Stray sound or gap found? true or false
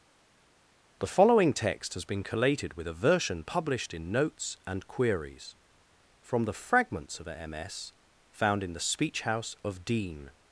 false